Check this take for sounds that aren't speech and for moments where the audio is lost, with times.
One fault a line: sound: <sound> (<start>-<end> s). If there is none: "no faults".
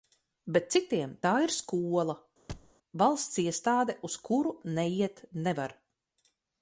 sound: thud (2.5-2.7 s)